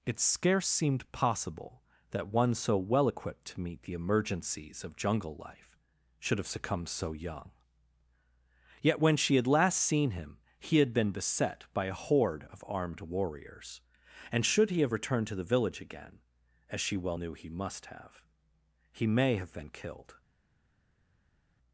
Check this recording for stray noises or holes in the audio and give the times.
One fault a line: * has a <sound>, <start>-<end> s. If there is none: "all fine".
all fine